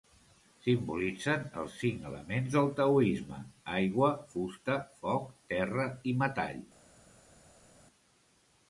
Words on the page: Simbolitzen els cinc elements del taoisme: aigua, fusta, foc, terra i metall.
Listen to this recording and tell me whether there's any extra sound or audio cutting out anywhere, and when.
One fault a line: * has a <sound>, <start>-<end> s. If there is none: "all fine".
all fine